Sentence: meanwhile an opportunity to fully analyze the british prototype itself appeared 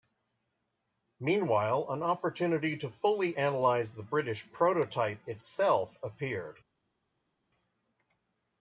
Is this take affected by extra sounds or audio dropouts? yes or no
no